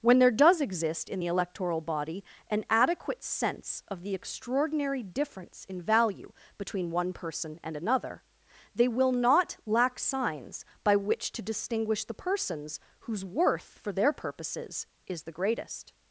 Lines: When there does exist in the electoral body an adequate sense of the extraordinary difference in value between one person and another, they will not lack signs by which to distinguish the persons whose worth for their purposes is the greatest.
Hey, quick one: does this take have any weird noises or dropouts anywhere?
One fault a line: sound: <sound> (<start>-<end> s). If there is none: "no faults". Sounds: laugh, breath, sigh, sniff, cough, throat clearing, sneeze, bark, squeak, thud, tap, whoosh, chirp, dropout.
no faults